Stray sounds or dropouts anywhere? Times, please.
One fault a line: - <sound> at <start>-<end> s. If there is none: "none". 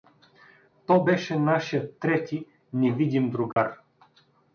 - dropout at 3.5-3.6 s